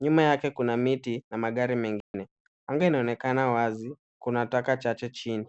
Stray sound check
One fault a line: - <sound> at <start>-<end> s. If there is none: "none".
- dropout at 2.0-2.1 s